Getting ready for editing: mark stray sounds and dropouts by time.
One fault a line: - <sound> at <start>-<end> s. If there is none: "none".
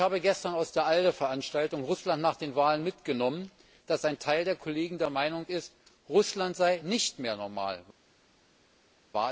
none